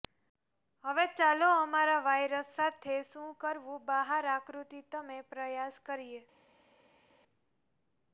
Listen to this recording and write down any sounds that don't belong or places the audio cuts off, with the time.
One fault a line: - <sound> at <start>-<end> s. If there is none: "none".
none